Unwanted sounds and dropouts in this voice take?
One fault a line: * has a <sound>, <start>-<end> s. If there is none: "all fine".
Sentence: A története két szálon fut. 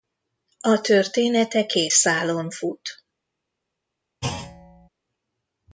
* has a thud, 4.2-4.9 s